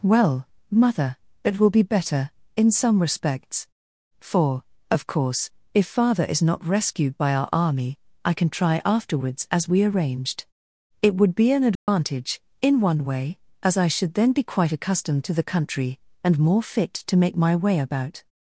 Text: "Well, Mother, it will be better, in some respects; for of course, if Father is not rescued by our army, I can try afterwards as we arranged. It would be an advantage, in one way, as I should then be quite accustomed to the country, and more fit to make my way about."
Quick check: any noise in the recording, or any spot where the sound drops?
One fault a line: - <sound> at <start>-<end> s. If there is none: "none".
- dropout at 11.8-11.9 s